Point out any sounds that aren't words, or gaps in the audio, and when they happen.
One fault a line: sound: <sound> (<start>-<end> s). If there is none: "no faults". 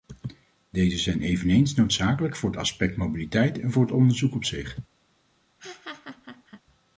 sound: laugh (5.6-6.6 s)